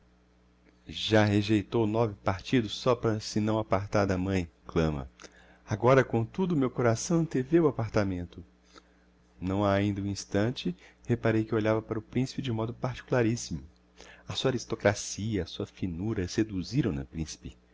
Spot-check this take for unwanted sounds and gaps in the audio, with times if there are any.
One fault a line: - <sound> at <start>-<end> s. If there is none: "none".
none